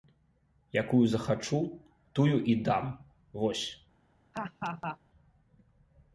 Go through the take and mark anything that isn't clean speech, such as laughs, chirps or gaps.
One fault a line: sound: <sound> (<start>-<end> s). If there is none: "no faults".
sound: laugh (4.3-5.0 s)